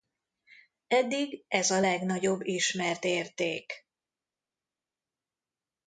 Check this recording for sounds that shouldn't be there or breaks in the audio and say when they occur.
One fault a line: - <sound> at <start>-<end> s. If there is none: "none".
none